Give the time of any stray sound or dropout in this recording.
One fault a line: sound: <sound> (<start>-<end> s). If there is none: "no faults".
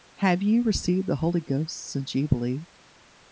no faults